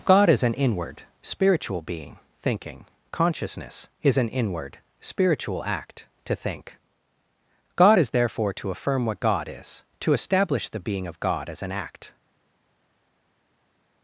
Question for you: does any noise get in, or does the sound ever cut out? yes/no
no